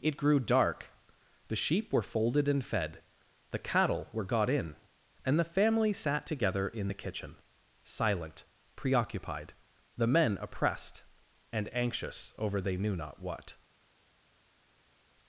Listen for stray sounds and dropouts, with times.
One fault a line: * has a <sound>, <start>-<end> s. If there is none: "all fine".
all fine